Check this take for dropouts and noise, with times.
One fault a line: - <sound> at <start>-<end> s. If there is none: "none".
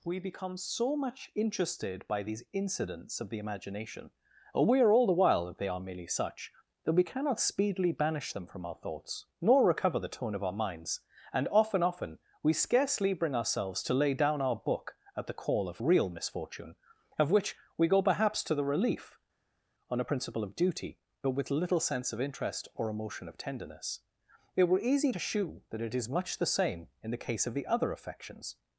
none